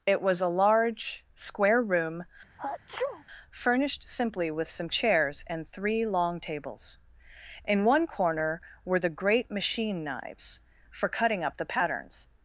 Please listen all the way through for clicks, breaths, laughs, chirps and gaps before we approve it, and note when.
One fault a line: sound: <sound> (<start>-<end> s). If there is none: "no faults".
sound: sneeze (2.6-3.2 s)